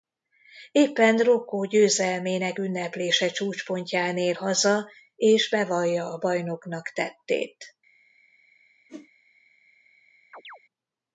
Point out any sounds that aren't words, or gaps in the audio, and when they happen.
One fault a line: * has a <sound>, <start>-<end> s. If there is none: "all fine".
* has a whoosh, 8.9-9.1 s
* has a chirp, 10.3-10.6 s